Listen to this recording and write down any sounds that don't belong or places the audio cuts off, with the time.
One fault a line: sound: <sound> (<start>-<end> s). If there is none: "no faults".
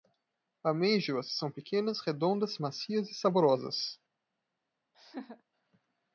sound: laugh (4.9-5.4 s)